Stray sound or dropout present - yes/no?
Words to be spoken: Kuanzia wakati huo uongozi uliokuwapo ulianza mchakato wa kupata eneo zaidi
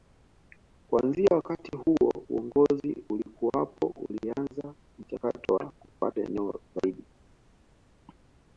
no